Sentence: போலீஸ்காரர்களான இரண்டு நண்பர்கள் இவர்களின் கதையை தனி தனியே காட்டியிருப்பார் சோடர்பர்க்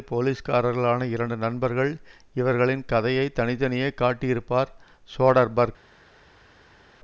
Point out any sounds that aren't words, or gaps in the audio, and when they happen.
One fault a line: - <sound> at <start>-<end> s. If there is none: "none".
none